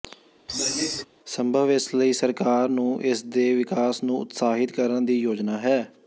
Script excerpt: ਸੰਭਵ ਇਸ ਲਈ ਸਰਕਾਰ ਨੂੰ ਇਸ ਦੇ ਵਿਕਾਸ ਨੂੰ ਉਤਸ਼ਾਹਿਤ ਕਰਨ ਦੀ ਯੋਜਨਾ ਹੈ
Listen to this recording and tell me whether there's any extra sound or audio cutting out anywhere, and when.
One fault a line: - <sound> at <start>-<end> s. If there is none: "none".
- throat clearing at 0.5-1.1 s